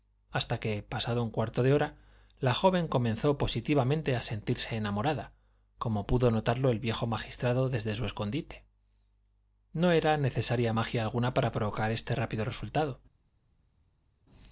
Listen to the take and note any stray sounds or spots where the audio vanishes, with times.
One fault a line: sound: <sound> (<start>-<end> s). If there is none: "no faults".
no faults